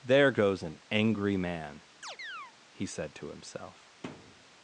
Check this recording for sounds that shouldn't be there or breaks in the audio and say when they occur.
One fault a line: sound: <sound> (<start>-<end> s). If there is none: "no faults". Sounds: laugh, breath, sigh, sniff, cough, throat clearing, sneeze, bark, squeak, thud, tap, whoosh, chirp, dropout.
sound: chirp (2.0-2.5 s)
sound: thud (4.0-4.5 s)